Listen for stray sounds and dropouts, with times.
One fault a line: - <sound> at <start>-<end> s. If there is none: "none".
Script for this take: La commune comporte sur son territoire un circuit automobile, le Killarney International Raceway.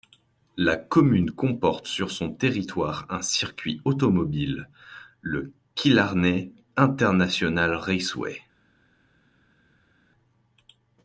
none